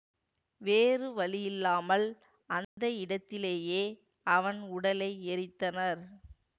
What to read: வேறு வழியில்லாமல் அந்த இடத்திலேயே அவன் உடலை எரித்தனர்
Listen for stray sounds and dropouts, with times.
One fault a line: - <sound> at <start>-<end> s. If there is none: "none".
- dropout at 2.6-2.8 s